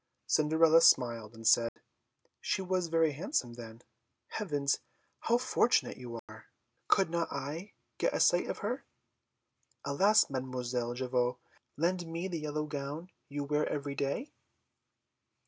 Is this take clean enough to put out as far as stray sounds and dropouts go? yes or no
no